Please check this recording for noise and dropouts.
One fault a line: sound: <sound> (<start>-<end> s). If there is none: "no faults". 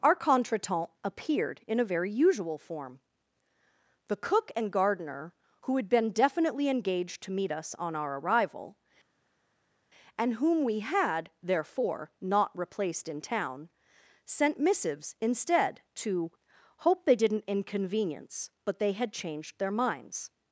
no faults